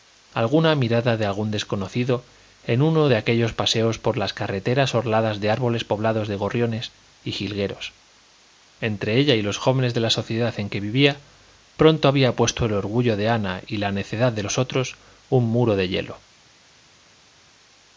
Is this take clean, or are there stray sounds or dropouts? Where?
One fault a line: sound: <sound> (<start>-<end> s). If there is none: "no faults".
no faults